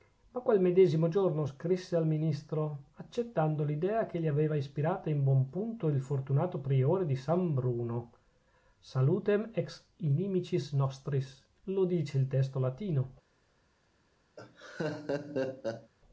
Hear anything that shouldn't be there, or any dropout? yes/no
yes